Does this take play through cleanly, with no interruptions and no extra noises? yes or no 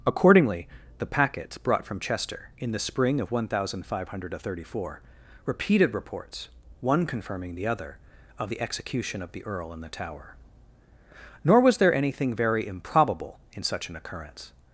yes